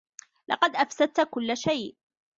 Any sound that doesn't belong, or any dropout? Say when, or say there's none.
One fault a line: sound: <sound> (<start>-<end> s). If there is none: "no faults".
no faults